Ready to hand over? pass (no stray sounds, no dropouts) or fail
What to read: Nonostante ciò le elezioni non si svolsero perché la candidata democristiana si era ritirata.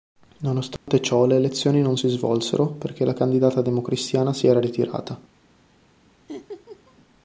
fail